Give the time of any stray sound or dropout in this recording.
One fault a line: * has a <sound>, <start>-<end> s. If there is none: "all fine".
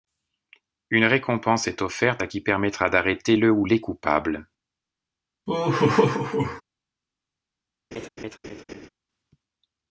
* has a laugh, 5.5-6.6 s
* has a laugh, 7.9-8.9 s